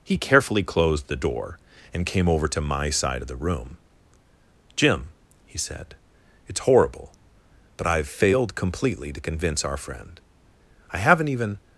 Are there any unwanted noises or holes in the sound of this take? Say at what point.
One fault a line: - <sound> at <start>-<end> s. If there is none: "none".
none